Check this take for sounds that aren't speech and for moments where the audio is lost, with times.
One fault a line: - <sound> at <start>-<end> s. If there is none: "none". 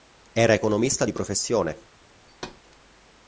- thud at 2.3-2.6 s